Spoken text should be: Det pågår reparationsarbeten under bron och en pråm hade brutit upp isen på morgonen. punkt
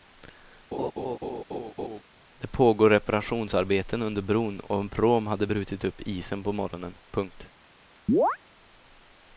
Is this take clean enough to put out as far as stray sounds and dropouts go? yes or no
no